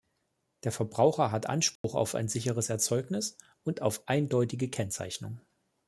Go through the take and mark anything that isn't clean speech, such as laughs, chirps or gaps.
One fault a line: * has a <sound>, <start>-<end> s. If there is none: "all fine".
* has a dropout, 1.8-1.8 s